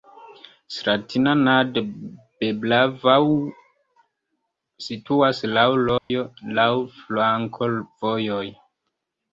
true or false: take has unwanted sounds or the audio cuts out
true